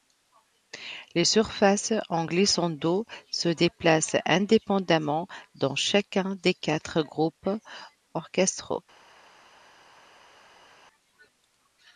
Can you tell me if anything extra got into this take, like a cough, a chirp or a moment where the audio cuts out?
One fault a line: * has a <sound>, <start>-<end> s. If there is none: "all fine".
all fine